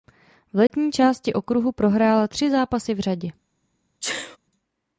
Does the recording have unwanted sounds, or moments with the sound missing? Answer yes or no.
yes